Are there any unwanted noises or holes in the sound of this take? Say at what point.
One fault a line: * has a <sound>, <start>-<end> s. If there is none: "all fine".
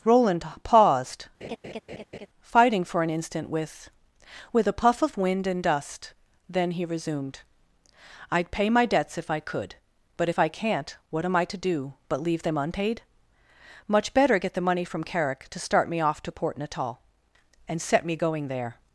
* has a laugh, 1.4-2.3 s